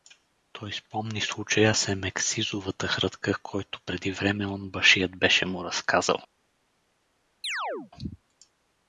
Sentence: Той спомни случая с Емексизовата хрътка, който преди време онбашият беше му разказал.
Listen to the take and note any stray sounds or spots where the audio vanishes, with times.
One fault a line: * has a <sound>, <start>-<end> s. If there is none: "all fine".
* has a chirp, 7.4-7.9 s